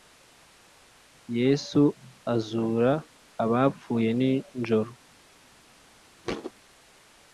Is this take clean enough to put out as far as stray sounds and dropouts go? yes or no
no